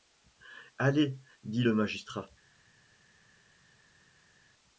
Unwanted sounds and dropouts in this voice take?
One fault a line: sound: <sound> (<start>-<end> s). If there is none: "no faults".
no faults